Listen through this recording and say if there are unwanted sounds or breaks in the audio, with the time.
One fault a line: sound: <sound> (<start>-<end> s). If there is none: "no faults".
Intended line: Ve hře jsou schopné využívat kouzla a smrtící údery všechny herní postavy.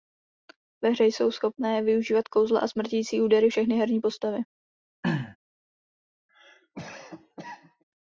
sound: throat clearing (5.0-5.4 s)
sound: cough (6.3-7.8 s)